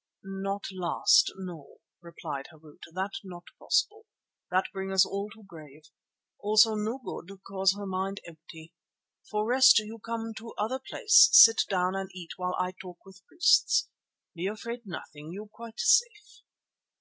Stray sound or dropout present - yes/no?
no